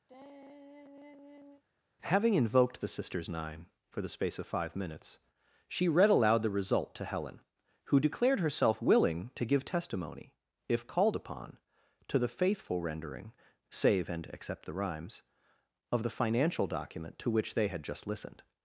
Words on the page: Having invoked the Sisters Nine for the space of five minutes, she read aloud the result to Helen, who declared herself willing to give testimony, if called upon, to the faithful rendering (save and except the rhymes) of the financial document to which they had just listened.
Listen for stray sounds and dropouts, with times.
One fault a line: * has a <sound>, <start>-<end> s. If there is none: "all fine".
* has a sigh, 0.1-1.6 s